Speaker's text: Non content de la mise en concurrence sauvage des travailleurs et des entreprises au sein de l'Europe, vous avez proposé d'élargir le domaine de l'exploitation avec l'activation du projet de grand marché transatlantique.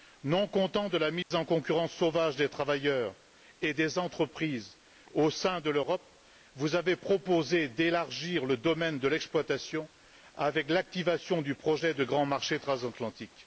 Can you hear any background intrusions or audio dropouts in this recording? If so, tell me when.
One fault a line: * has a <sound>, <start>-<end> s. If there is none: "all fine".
* has a dropout, 1.2-1.3 s